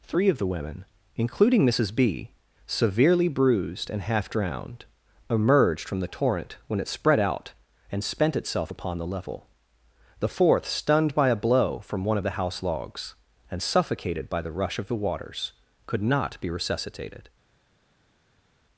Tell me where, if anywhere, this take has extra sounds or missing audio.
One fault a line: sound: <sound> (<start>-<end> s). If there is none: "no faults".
no faults